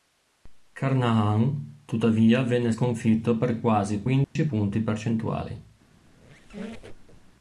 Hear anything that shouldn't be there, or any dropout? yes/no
yes